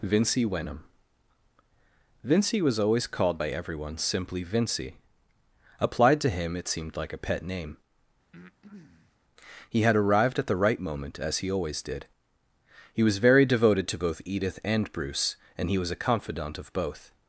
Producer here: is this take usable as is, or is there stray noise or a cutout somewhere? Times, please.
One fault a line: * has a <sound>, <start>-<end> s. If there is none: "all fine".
* has a breath, 8.3-9.2 s